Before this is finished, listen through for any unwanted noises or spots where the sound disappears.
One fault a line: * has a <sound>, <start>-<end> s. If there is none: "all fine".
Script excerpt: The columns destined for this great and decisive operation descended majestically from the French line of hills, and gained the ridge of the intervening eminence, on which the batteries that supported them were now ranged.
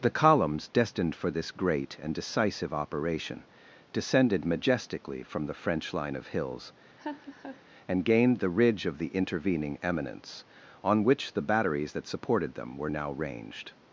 * has a laugh, 7.0-7.6 s